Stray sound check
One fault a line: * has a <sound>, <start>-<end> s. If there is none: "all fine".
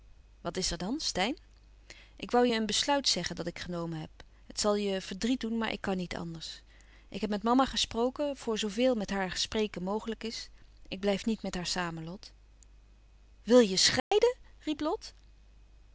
* has a dropout, 14.0-14.1 s